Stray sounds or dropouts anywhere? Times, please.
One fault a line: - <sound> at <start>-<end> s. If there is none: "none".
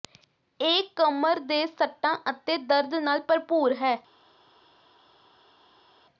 none